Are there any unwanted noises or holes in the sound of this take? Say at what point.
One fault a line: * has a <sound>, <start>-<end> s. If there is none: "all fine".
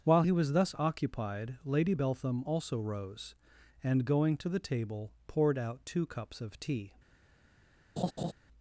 * has a laugh, 8.0-8.3 s